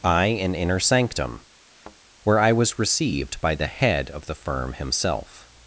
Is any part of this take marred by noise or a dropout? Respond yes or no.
yes